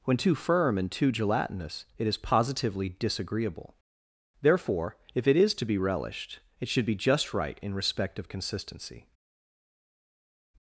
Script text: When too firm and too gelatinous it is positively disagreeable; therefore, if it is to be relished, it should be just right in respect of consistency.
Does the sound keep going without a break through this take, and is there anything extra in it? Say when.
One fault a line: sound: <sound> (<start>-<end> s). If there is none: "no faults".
no faults